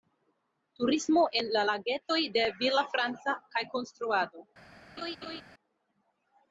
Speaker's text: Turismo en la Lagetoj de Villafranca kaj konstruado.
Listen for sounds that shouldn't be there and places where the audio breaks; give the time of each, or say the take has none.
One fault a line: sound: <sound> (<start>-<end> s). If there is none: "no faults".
sound: laugh (5.0-5.4 s)